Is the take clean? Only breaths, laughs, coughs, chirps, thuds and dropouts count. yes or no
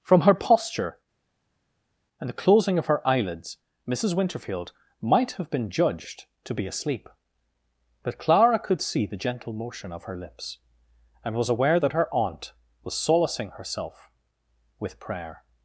yes